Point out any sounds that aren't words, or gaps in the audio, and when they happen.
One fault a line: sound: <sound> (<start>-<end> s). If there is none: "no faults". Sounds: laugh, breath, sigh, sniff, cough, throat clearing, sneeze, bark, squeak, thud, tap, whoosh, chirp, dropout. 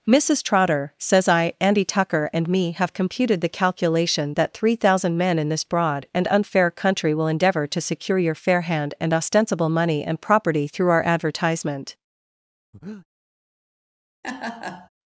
sound: breath (12.7-13.1 s)
sound: laugh (14.2-14.9 s)